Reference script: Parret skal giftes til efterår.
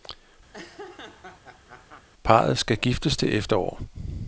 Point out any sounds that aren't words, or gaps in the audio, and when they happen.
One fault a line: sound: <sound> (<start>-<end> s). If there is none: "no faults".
sound: laugh (0.5-2.1 s)